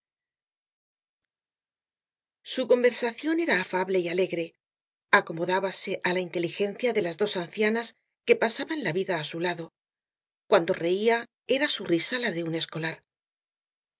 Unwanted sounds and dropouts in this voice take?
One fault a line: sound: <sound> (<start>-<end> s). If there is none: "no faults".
no faults